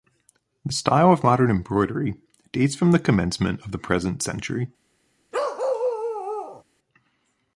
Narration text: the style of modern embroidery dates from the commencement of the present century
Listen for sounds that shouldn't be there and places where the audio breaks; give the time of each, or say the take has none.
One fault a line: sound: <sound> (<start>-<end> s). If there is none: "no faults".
sound: bark (5.3-6.6 s)